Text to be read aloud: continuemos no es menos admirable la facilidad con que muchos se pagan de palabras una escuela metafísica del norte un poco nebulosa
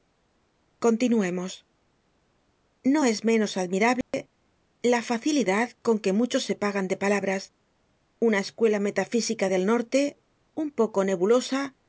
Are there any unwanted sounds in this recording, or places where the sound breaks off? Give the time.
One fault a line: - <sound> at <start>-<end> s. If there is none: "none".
- dropout at 4.0-4.1 s